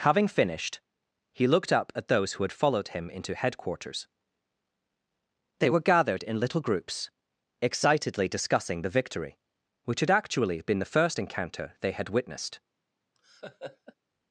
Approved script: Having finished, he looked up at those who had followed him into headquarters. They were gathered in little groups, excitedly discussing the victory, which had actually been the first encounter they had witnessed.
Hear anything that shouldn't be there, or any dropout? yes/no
yes